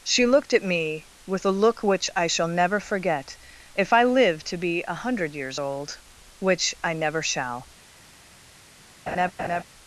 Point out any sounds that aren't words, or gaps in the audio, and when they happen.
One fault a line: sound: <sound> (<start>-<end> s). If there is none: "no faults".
sound: laugh (9.1-9.6 s)